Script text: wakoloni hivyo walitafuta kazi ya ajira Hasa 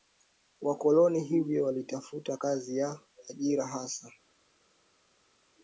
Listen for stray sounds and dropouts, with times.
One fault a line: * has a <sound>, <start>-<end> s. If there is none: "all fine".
all fine